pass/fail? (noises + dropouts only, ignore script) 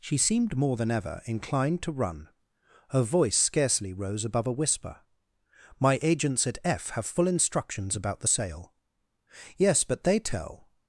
pass